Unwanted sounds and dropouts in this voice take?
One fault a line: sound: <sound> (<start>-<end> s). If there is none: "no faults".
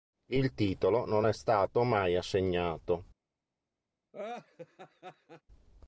sound: laugh (4.1-5.4 s)